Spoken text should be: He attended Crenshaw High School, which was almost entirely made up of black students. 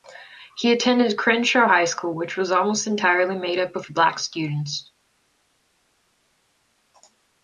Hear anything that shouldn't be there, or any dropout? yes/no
no